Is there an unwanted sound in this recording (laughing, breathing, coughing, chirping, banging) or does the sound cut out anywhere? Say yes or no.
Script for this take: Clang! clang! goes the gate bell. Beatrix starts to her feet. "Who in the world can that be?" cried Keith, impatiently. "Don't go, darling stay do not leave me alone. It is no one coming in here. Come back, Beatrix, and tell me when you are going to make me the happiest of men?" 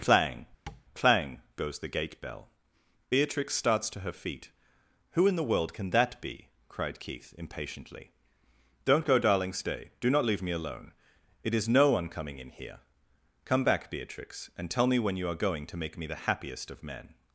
yes